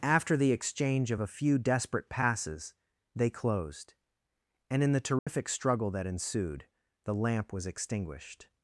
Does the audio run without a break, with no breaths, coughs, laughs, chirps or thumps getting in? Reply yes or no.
no